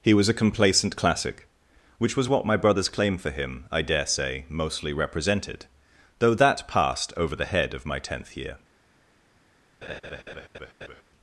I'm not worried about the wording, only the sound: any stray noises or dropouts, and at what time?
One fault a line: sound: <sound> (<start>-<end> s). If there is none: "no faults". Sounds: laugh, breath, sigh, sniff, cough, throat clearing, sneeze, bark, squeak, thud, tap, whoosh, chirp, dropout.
sound: laugh (9.8-11.0 s)